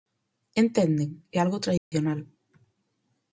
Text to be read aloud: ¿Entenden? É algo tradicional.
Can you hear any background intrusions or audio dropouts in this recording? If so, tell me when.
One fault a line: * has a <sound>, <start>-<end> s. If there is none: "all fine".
* has a dropout, 1.8-1.9 s